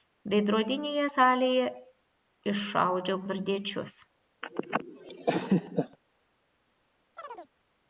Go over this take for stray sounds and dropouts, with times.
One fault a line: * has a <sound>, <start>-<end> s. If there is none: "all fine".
* has a laugh, 4.4-6.0 s
* has a chirp, 7.2-7.5 s